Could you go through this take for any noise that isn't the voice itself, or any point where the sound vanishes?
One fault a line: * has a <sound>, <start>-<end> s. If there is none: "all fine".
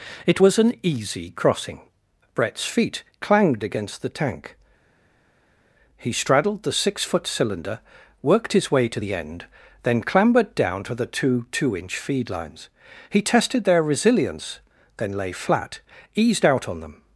all fine